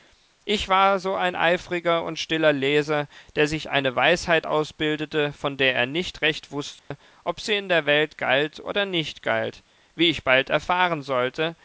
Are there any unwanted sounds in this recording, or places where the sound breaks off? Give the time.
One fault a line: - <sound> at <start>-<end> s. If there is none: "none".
- dropout at 6.8-6.9 s